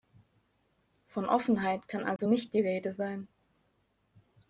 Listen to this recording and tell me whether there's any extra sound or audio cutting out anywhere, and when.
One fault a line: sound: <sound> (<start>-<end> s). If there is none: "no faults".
sound: dropout (2.2-2.2 s)